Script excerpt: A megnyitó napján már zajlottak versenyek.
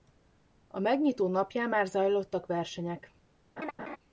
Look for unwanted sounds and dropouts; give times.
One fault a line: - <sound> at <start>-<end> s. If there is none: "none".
- laugh at 3.6-4.0 s